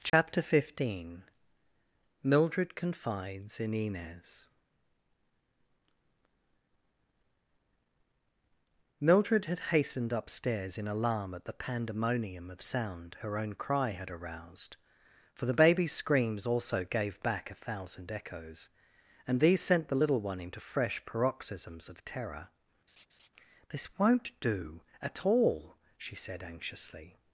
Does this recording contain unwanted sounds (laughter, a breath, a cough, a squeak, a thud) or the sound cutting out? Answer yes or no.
yes